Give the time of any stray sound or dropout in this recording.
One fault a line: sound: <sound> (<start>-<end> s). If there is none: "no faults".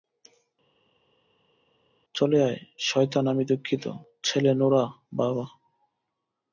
no faults